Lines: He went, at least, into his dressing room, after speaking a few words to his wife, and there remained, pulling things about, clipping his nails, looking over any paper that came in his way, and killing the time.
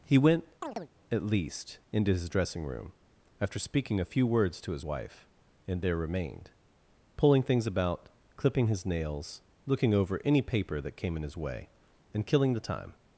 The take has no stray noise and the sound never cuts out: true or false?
false